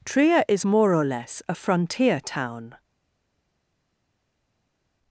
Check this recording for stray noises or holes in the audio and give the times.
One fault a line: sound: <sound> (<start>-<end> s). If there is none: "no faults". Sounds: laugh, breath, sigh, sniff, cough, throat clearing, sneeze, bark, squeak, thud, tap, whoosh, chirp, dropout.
no faults